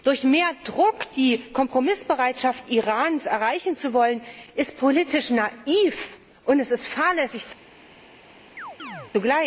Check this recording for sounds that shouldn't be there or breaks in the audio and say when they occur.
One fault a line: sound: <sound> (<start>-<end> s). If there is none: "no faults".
sound: chirp (8.6-9.1 s)